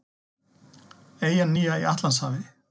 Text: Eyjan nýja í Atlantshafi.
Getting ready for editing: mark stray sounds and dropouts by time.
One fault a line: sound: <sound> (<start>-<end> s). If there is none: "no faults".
no faults